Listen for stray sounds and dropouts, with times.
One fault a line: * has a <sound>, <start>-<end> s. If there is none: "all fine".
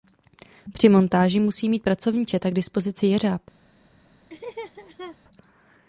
* has a laugh, 4.3-5.2 s